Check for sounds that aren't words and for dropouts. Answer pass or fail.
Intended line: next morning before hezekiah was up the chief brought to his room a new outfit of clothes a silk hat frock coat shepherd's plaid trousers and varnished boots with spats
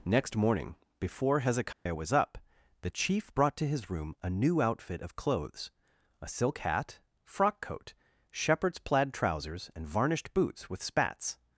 fail